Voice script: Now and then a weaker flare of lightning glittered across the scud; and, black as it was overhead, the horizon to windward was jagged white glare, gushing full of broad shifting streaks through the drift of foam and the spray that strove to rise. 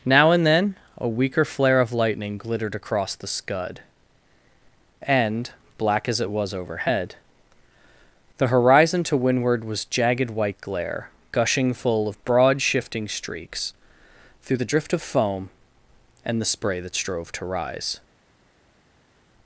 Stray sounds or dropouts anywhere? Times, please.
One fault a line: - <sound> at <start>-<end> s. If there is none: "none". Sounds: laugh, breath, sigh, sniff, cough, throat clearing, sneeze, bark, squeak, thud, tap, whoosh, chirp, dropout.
none